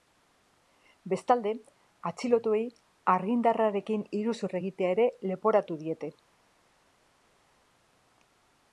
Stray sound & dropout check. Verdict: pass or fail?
pass